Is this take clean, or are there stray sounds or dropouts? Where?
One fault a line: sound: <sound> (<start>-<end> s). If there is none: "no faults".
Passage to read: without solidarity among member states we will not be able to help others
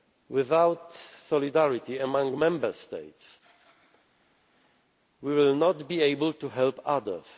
no faults